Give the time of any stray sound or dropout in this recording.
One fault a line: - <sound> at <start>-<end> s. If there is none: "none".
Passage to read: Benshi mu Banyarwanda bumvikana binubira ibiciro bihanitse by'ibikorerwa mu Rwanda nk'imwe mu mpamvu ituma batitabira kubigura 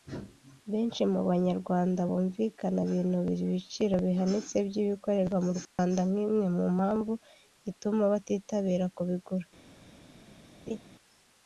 - dropout at 5.7-5.8 s
- laugh at 10.7-10.8 s